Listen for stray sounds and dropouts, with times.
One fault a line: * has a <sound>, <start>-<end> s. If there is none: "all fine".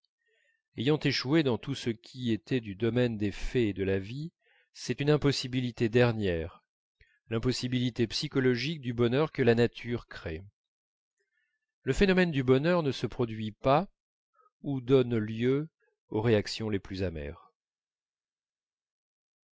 all fine